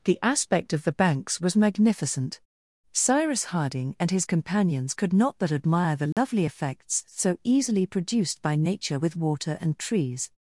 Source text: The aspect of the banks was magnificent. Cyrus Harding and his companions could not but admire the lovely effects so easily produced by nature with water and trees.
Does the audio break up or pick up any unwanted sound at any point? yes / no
yes